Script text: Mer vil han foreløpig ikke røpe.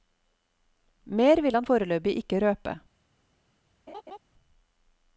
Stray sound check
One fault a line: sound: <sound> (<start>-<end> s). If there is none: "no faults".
sound: laugh (3.9-4.2 s)